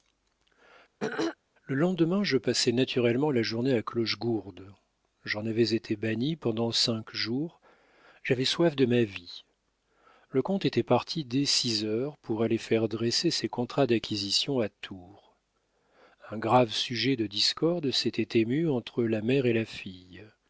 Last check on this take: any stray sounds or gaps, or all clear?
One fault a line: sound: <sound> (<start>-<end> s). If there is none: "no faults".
sound: throat clearing (1.0-1.4 s)